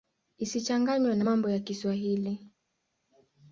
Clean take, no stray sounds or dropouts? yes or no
yes